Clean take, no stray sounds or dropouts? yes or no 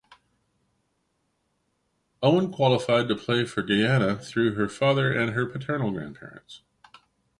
yes